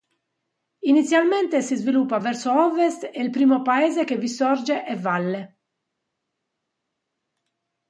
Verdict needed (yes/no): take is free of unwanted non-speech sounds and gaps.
yes